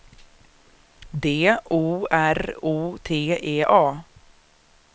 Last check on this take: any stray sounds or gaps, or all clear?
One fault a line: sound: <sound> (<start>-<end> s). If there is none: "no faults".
no faults